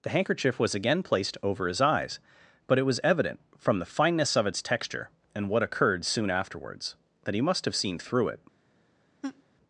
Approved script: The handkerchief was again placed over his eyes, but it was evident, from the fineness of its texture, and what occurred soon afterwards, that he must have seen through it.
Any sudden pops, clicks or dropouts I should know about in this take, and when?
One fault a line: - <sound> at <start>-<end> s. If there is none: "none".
- laugh at 9.2-9.4 s